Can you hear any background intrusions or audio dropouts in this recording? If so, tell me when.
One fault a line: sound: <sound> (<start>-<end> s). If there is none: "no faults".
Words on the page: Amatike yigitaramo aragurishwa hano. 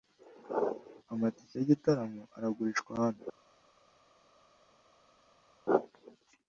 no faults